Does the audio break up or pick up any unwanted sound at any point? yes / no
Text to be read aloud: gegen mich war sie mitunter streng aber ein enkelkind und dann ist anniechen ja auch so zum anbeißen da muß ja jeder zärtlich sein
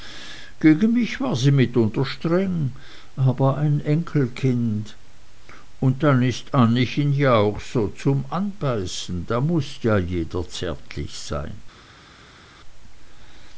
no